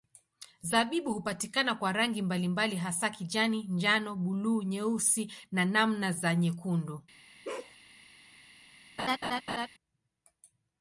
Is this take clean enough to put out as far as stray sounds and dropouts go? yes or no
no